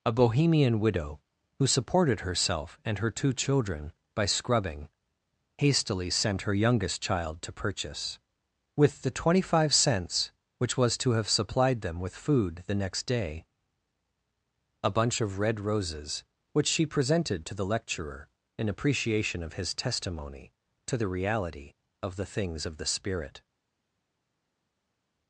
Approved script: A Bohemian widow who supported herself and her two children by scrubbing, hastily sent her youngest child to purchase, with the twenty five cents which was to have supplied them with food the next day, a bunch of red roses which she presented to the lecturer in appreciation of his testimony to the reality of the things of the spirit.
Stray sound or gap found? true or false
false